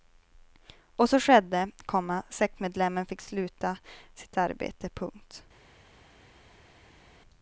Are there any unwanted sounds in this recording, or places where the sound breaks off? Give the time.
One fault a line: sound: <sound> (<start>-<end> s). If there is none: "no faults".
no faults